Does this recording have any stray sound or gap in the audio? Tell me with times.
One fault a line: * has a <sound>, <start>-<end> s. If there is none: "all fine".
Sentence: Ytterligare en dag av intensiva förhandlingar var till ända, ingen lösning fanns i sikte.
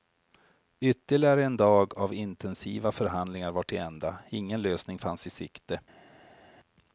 all fine